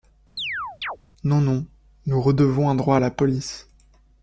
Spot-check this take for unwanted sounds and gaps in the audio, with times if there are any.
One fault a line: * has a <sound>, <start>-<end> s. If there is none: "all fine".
* has a chirp, 0.4-1.0 s